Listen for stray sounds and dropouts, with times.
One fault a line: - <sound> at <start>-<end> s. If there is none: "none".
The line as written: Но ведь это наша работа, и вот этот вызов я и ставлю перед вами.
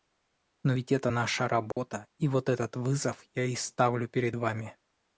- dropout at 1.7-1.8 s